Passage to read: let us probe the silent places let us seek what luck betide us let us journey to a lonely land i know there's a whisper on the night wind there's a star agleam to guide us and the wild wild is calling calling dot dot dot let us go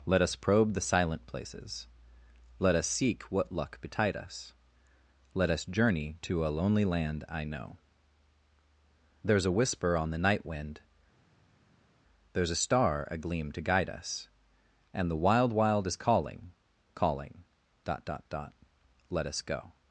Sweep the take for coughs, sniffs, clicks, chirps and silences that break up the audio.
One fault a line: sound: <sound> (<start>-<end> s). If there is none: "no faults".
no faults